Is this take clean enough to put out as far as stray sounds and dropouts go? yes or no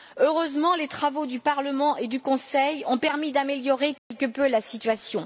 no